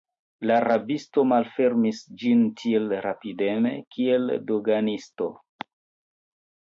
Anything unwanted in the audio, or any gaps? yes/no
no